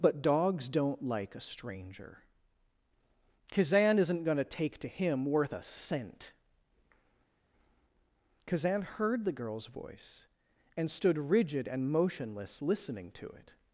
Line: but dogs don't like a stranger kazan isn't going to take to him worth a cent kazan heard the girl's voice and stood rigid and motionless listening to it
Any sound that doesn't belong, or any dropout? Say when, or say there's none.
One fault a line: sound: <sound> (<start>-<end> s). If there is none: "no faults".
no faults